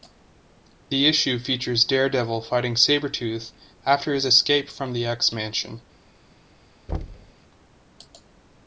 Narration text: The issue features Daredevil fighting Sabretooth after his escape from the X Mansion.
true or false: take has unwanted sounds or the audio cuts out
true